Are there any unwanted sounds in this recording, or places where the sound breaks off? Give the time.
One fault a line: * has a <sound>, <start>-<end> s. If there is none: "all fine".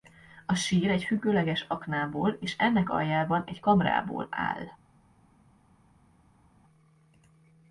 all fine